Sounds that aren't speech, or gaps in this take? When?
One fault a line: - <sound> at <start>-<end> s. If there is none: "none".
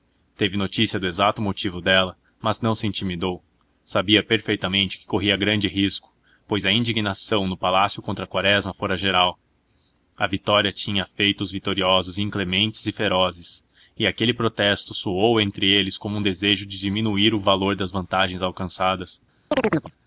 - chirp at 19.5-19.9 s